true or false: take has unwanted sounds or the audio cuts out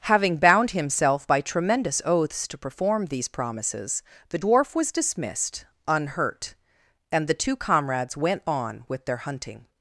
false